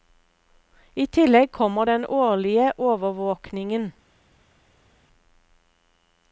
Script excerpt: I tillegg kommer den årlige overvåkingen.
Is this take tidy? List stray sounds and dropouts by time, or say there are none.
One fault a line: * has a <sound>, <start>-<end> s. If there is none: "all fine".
all fine